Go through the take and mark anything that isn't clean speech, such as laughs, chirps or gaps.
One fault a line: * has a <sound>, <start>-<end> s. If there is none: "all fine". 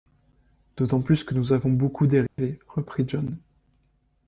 * has a dropout, 2.3-2.4 s